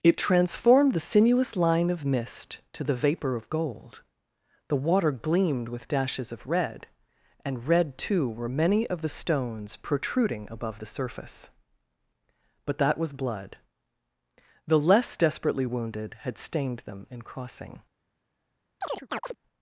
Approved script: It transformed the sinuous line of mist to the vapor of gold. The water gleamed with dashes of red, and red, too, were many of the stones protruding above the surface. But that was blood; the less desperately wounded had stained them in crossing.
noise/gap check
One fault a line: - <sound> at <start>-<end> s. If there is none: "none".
- chirp at 18.8-19.4 s